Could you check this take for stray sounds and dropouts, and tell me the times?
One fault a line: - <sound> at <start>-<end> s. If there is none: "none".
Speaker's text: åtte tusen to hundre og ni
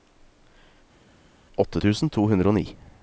none